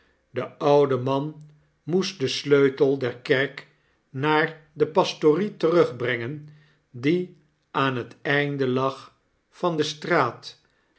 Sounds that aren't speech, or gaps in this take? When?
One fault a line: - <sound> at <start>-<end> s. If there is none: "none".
none